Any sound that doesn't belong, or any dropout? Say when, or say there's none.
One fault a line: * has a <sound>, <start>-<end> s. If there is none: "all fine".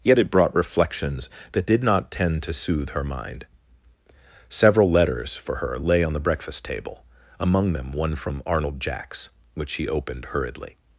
all fine